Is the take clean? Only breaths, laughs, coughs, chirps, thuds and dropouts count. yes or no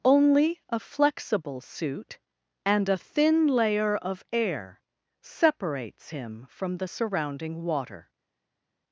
yes